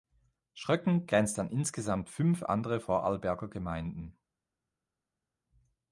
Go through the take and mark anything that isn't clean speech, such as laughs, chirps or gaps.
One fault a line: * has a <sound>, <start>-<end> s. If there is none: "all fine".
all fine